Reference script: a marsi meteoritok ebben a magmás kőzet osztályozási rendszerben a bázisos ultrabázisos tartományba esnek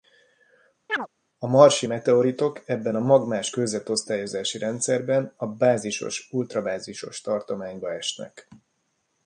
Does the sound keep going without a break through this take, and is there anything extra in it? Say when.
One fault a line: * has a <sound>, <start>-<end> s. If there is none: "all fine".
* has a chirp, 0.9-1.1 s